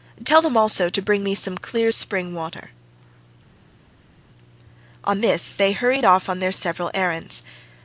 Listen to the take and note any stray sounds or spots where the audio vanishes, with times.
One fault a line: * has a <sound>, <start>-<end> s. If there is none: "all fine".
all fine